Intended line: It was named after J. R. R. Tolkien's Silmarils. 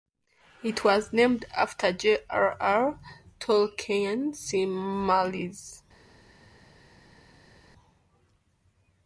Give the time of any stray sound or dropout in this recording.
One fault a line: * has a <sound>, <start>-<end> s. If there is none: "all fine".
all fine